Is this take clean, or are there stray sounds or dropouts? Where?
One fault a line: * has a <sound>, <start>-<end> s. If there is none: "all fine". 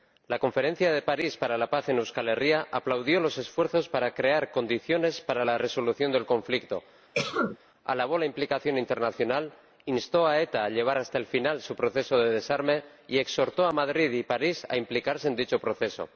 * has a cough, 7.1-7.6 s